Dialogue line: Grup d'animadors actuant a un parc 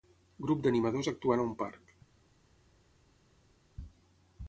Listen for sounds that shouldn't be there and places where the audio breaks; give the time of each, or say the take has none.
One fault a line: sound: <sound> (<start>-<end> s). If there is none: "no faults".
no faults